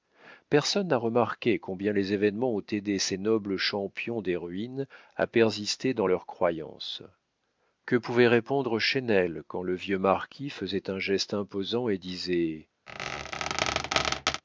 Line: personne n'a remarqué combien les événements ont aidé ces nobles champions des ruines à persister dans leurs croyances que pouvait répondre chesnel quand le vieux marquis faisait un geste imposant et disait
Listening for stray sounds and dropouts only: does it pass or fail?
fail